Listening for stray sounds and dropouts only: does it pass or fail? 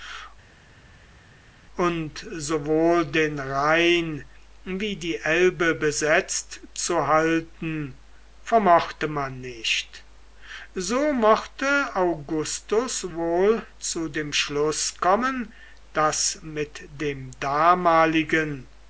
pass